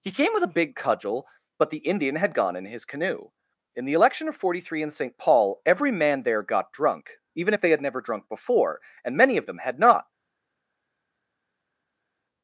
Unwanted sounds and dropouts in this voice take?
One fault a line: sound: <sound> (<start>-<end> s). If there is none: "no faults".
no faults